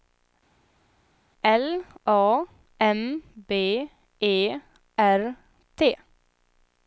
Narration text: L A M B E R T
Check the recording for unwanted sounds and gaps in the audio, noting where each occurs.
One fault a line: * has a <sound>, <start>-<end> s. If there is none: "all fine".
all fine